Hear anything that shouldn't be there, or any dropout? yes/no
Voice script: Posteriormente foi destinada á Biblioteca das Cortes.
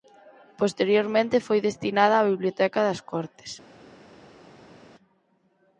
no